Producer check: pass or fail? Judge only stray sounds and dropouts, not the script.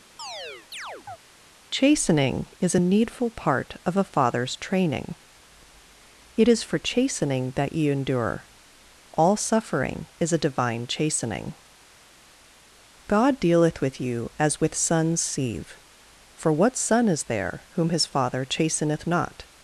fail